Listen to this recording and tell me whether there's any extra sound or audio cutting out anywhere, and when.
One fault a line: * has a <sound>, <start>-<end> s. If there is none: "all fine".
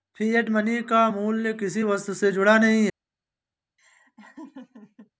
* has a laugh, 3.8-5.1 s